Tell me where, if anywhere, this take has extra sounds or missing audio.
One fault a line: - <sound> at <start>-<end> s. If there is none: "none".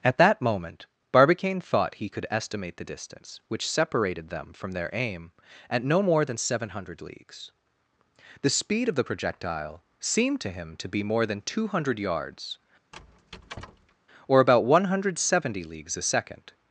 - squeak at 12.9-14.0 s